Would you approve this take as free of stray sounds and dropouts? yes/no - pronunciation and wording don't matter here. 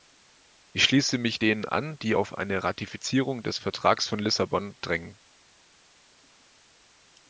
yes